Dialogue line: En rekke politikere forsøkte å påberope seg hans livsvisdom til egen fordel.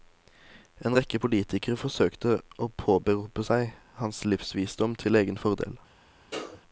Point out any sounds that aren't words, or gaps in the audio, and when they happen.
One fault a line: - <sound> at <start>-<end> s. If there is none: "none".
- sneeze at 6.3-6.6 s